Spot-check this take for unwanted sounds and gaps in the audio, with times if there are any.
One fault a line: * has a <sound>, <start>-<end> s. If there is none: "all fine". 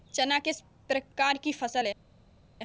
all fine